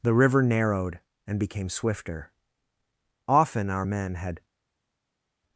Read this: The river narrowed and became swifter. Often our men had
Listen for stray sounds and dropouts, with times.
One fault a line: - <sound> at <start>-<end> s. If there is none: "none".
none